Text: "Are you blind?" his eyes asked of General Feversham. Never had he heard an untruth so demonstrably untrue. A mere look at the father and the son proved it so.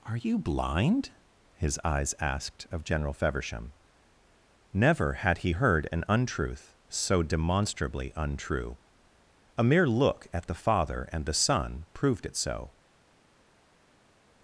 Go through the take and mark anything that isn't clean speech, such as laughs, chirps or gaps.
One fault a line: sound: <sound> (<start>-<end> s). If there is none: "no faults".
no faults